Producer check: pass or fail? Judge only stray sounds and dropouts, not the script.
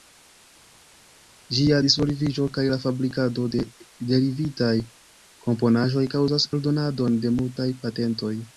pass